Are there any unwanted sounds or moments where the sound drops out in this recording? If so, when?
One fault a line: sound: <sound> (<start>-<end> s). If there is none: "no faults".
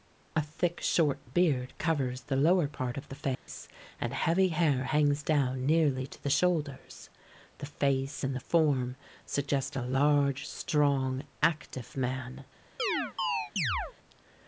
sound: dropout (3.3-3.5 s)
sound: chirp (12.8-13.9 s)